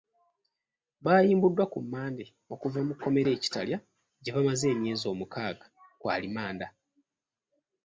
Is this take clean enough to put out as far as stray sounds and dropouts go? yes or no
yes